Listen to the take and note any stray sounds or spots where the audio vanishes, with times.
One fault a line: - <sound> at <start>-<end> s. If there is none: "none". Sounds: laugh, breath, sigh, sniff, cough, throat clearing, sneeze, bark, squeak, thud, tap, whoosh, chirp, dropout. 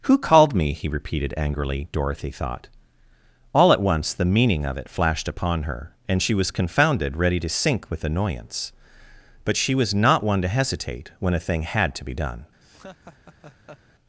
- laugh at 12.6-13.8 s